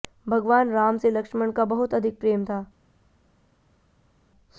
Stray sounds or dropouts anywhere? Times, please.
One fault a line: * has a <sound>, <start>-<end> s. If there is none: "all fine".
all fine